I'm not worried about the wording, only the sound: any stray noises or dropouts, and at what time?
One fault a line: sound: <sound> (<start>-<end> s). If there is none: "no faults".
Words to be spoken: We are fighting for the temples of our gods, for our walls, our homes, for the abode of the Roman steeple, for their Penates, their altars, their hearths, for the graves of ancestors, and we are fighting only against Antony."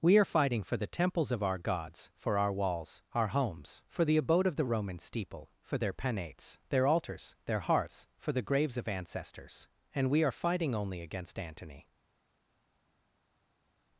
no faults